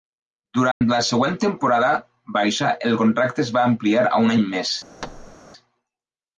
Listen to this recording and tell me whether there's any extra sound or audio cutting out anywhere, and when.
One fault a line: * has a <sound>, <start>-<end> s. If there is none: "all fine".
* has a dropout, 0.7-0.8 s
* has a thud, 5.0-5.4 s